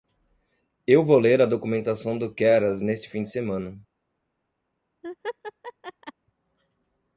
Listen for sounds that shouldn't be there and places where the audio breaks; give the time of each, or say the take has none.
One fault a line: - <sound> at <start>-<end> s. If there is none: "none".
- laugh at 5.0-6.1 s